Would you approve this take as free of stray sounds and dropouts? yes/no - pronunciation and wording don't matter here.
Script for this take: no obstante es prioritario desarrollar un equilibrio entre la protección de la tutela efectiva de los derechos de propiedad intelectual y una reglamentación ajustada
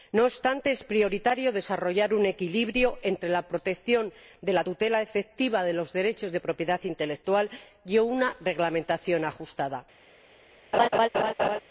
no